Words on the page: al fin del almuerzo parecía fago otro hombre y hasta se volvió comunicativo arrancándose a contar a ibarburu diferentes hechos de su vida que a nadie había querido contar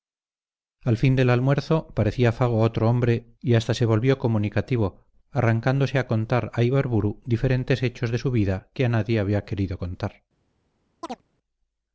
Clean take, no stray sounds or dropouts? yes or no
no